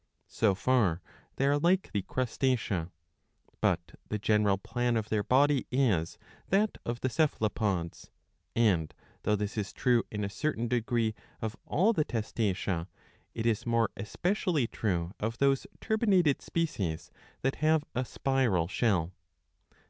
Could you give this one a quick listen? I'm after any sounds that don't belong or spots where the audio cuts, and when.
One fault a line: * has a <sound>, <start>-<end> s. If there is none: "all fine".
all fine